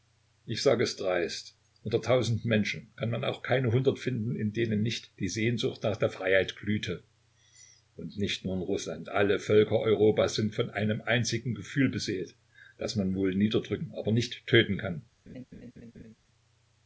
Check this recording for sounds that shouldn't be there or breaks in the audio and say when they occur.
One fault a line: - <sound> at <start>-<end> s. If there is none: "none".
- laugh at 15.3-16.1 s